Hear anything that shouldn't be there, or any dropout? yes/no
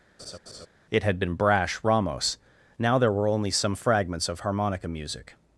yes